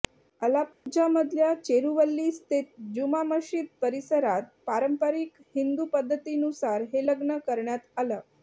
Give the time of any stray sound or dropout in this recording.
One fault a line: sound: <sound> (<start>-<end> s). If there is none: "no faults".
sound: dropout (0.7-0.9 s)